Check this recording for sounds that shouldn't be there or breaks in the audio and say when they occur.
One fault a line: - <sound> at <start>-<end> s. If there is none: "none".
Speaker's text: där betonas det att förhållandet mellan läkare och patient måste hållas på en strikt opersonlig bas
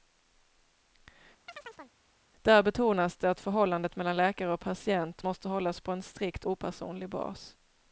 - chirp at 1.5-2.0 s